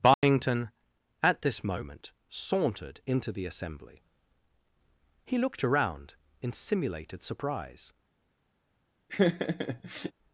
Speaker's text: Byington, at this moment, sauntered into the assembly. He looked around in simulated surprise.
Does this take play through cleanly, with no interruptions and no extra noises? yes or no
no